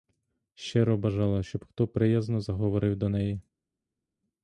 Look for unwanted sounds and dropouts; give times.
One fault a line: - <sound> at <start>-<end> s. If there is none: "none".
none